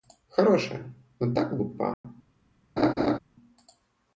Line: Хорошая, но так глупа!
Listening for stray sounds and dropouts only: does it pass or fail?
fail